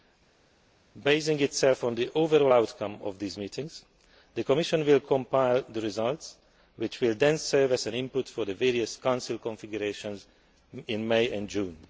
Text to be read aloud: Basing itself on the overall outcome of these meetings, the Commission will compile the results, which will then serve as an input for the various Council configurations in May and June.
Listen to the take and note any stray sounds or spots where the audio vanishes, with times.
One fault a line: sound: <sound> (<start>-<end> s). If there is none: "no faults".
no faults